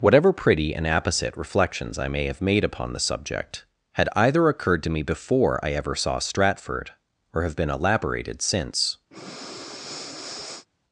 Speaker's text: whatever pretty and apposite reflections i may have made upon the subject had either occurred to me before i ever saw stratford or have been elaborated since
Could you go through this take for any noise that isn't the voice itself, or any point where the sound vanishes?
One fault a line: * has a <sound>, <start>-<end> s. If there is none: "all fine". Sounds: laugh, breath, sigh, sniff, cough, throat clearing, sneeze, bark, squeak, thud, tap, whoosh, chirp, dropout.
* has a breath, 9.1-10.7 s